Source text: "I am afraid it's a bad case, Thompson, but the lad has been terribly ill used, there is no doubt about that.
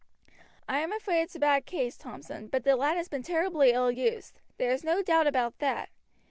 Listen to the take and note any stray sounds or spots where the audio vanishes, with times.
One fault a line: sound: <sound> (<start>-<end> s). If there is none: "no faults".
no faults